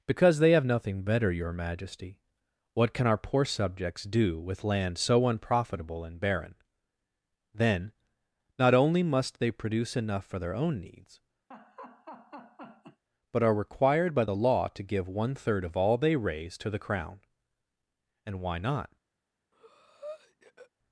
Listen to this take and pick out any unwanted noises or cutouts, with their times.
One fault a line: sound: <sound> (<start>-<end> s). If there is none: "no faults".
sound: laugh (11.5-13.0 s)
sound: breath (19.5-20.7 s)